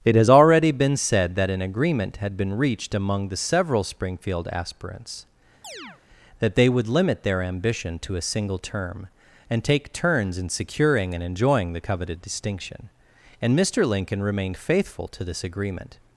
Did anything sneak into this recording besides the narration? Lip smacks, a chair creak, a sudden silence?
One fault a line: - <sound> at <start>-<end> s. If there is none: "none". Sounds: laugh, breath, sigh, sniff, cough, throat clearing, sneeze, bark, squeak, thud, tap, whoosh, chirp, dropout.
- chirp at 5.6-6.0 s